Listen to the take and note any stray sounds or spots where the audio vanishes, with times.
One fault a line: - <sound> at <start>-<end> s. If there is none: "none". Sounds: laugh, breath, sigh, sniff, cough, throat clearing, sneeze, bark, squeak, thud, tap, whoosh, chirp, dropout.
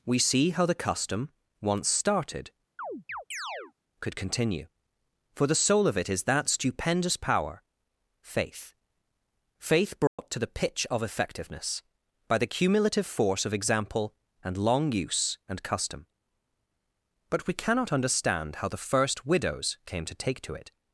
- chirp at 2.8-3.7 s
- dropout at 10.1-10.2 s